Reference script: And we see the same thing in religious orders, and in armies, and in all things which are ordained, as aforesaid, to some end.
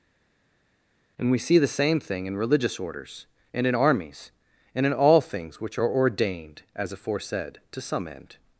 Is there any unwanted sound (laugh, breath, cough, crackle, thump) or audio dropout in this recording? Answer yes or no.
no